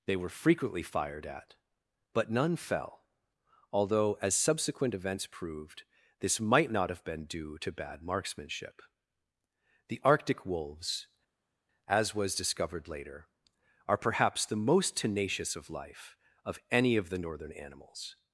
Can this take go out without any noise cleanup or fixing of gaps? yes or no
yes